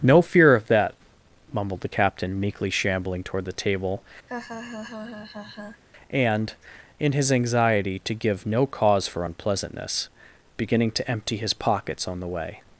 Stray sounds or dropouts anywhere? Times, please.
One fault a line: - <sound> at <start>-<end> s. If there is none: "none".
- laugh at 4.3-5.8 s